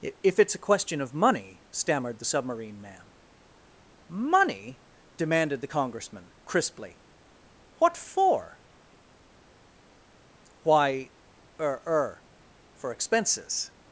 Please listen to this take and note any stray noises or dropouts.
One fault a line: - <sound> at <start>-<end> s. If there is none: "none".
none